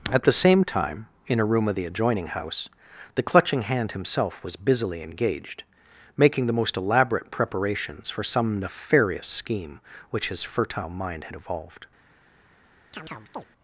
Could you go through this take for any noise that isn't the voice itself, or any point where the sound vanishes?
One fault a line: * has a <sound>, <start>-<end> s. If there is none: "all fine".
* has a chirp, 12.9-13.5 s